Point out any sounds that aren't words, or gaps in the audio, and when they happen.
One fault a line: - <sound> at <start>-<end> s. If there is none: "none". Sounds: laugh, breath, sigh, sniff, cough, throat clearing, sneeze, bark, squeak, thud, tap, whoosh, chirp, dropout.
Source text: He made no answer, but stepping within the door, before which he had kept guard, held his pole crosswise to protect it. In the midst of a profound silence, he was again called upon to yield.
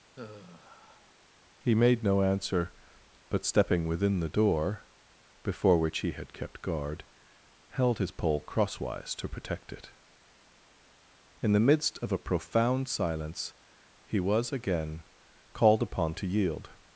- sigh at 0.1-1.1 s